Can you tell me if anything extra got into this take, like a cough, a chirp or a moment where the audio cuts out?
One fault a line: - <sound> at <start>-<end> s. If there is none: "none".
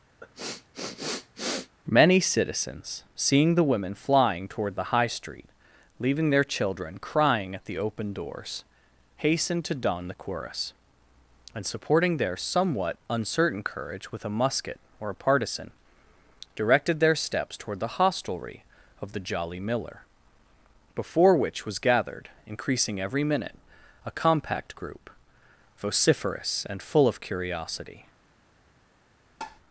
- sniff at 0.2-1.8 s
- tap at 29.4-29.6 s